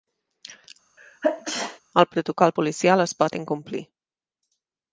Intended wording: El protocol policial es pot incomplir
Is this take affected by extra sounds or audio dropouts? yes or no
yes